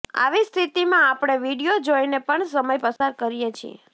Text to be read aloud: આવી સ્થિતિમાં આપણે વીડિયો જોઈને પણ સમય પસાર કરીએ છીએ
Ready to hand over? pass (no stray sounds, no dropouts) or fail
fail